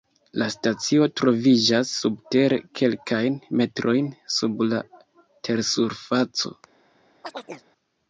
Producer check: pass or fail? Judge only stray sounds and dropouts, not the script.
fail